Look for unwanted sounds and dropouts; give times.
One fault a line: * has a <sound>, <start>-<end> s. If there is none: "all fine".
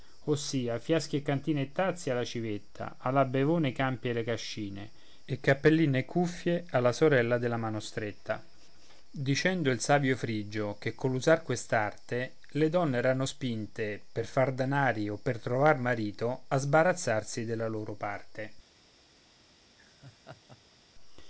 * has a laugh, 19.7-20.8 s